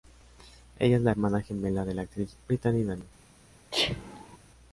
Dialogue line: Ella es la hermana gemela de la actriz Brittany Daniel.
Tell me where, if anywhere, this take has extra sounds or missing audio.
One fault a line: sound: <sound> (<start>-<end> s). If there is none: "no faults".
sound: sneeze (3.7-4.4 s)